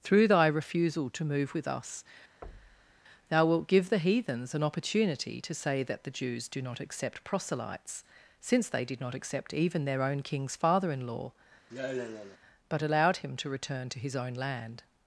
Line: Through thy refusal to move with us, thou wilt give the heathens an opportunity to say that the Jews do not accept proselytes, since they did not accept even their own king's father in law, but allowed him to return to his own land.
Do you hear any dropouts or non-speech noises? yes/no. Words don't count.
yes